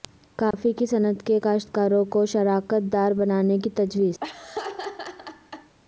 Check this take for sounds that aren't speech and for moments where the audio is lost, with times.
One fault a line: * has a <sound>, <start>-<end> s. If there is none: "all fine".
* has a dropout, 0.5-0.5 s
* has a laugh, 4.2-5.7 s